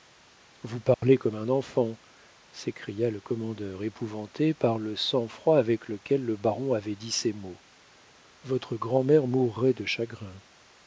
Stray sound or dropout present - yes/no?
yes